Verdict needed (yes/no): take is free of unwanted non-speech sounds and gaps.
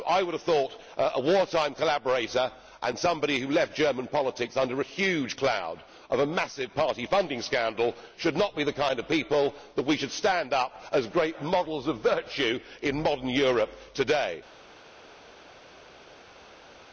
yes